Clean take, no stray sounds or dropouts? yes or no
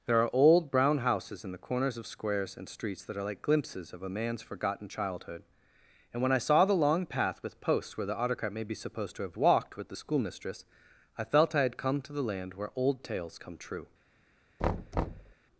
no